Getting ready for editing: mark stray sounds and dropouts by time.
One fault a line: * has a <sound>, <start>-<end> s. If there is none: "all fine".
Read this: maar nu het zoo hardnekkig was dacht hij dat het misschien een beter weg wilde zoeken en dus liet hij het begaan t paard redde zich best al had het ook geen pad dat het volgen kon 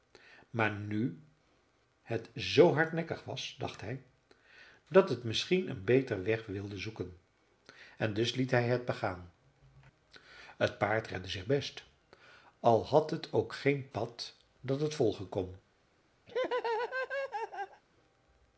* has a laugh, 16.3-17.8 s